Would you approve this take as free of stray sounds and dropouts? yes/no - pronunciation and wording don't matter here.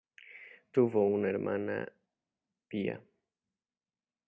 yes